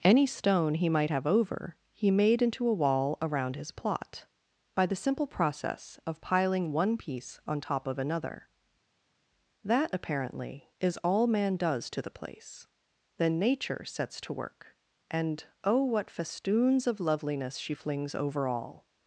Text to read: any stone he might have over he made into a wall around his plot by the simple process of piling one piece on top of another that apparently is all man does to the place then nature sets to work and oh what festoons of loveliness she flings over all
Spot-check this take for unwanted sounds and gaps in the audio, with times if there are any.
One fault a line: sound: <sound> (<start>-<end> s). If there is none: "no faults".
no faults